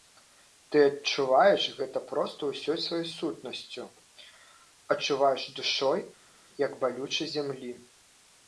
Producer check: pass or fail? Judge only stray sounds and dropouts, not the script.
pass